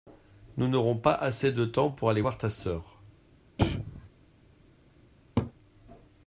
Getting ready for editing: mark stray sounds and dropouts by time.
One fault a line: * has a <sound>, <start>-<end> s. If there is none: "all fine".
* has a throat clearing, 3.6-4.1 s
* has a laugh, 5.4-5.5 s